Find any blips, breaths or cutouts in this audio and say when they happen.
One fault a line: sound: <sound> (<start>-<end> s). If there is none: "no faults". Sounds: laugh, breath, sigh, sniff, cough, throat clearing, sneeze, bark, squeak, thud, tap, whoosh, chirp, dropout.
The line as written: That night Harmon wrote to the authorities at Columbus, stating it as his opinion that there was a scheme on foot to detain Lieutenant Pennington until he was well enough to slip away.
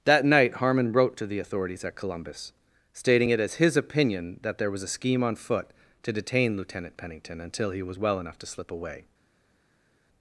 no faults